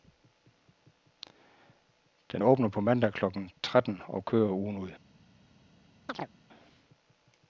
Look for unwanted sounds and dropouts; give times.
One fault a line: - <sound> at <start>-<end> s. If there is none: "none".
- chirp at 6.1-6.3 s